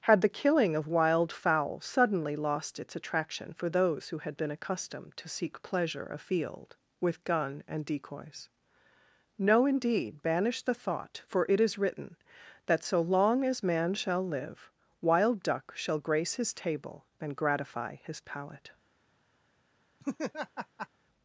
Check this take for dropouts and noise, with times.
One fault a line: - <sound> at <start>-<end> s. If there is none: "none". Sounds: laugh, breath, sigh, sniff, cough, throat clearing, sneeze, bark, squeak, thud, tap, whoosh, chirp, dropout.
- laugh at 20.0-20.9 s